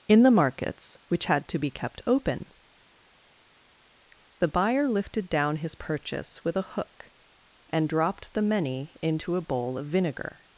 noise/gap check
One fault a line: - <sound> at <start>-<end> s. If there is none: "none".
none